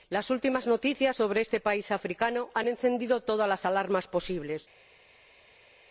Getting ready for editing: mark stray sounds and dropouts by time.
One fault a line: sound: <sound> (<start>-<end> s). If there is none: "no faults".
no faults